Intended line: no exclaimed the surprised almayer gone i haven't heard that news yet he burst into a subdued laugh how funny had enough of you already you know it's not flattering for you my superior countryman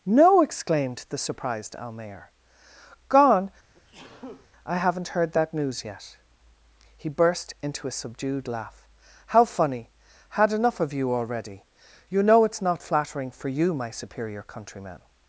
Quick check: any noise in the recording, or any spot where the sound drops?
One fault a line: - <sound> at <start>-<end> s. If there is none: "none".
- sneeze at 3.7-4.5 s